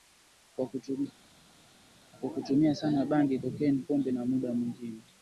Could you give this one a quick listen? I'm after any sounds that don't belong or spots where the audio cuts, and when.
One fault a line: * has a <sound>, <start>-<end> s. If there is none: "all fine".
all fine